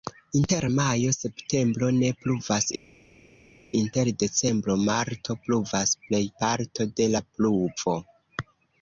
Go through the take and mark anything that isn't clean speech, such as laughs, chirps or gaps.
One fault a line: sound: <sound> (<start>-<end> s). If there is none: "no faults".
no faults